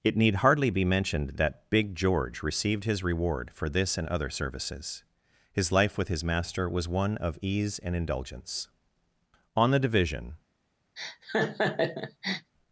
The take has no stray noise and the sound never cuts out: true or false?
false